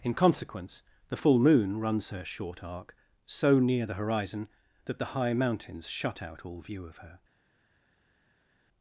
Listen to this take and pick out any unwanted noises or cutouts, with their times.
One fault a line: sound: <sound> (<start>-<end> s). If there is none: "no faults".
no faults